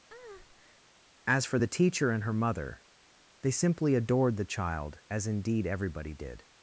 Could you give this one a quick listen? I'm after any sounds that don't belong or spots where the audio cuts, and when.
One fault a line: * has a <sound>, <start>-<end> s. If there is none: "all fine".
* has a breath, 0.1-0.8 s